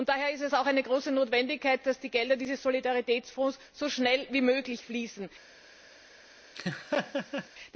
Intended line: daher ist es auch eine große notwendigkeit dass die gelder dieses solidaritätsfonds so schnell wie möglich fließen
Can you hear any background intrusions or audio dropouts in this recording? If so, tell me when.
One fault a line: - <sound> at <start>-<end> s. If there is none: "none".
- laugh at 6.6-7.5 s